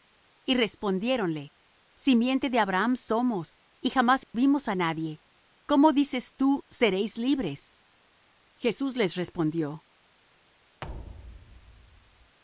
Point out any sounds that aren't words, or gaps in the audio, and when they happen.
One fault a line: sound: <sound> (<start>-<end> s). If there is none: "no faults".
sound: dropout (4.2-4.3 s)
sound: thud (10.8-12.4 s)